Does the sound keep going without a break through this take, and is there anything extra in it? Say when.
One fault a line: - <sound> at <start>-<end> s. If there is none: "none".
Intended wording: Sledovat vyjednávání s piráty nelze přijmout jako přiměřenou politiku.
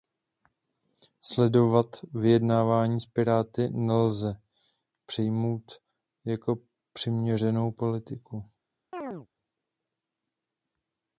- chirp at 8.9-9.3 s